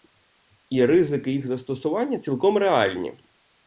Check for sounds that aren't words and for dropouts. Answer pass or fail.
pass